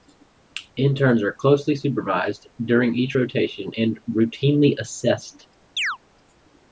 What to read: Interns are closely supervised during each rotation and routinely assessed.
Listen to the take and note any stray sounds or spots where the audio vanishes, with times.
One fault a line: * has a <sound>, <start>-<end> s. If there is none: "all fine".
* has a chirp, 5.8-6.0 s